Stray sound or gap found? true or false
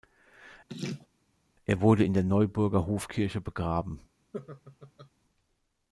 true